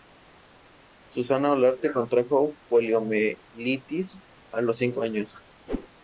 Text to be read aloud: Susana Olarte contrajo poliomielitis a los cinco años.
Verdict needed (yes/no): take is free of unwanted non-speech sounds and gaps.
no